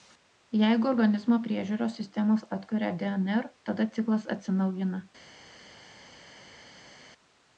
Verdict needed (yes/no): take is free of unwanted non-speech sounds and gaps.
yes